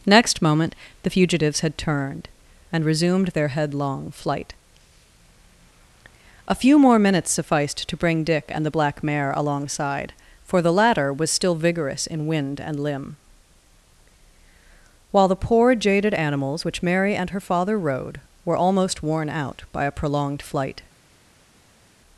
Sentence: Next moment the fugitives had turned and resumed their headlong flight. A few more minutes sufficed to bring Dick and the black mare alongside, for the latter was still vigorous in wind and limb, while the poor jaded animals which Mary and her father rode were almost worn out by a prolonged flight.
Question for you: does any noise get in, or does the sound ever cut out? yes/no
no